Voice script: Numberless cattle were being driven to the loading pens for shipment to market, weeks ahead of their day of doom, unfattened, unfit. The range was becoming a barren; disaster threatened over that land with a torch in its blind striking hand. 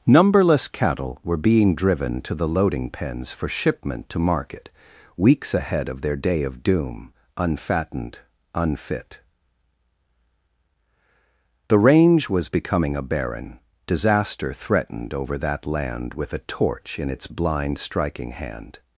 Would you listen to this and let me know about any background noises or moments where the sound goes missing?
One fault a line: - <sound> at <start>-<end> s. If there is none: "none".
none